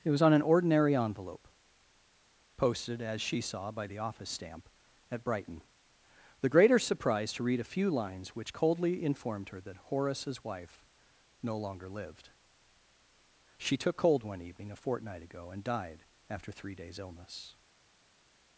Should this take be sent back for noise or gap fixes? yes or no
no